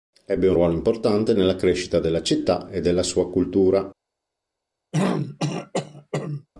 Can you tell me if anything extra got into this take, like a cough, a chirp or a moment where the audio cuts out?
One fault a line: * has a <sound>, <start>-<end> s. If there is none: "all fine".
* has a throat clearing, 4.9-6.5 s